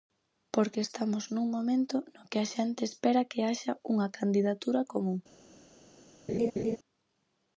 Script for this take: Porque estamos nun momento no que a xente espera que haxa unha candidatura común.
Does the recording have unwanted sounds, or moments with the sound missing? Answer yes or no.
yes